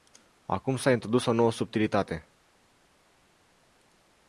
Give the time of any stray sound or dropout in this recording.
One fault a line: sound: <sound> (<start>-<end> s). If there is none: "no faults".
no faults